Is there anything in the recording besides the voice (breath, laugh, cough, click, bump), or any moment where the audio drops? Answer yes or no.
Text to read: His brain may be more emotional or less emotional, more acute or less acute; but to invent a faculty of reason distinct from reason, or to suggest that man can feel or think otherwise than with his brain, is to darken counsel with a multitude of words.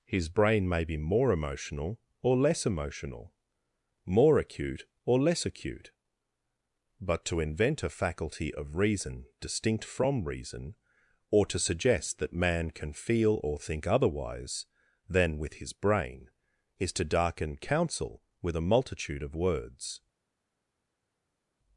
no